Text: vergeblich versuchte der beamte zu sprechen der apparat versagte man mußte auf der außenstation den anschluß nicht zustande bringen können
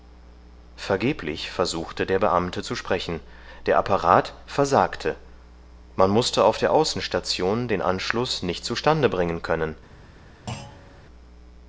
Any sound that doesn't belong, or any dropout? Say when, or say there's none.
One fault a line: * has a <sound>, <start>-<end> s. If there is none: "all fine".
* has a thud, 10.5-11.0 s